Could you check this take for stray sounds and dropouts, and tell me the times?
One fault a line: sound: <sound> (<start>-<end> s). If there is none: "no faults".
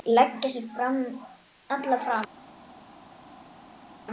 no faults